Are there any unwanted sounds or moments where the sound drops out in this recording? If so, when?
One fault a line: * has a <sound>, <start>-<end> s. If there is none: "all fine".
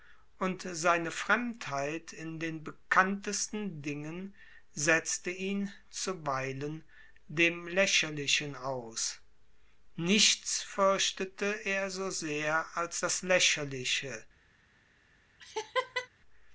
* has a laugh, 15.4-16.1 s